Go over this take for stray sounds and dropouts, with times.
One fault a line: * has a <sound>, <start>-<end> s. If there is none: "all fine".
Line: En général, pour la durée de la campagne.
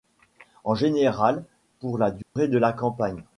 * has a dropout, 2.2-2.4 s